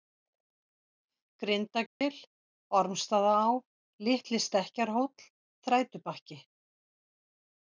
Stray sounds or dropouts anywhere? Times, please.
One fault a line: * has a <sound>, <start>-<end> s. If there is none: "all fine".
* has a dropout, 1.9-2.0 s